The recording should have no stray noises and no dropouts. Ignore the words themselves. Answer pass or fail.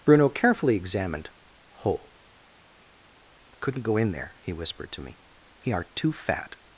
pass